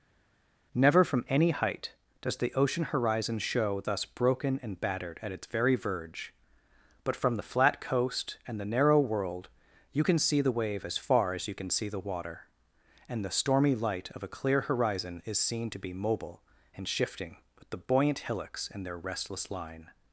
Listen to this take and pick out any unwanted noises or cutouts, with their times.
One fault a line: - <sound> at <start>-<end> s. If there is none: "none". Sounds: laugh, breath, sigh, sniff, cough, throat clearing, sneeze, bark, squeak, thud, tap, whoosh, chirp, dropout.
none